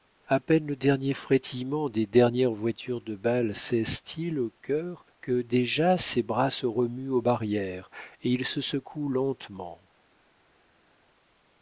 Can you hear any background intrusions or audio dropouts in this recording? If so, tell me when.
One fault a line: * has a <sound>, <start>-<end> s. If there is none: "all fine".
all fine